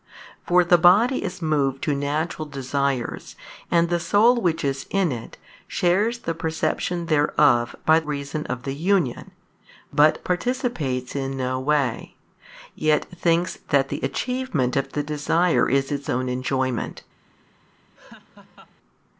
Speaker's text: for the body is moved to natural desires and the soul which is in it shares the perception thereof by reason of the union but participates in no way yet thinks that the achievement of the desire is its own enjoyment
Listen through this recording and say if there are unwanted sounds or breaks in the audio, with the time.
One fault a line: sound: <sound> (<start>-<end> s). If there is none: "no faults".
sound: laugh (17.9-18.8 s)